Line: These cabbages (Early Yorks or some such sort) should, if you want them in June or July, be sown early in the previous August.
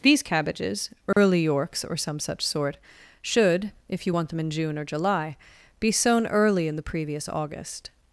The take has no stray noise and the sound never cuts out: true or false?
false